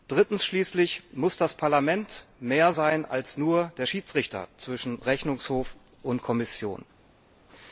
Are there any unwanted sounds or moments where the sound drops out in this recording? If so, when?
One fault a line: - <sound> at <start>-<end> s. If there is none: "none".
none